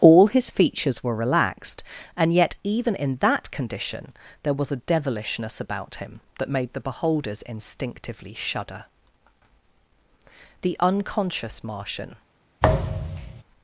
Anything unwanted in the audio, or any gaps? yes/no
yes